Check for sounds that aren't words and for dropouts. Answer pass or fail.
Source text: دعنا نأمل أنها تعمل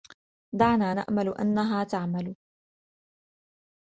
pass